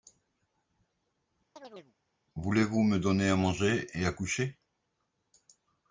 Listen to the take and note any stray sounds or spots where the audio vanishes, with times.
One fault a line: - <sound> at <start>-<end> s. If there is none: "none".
- chirp at 1.6-1.9 s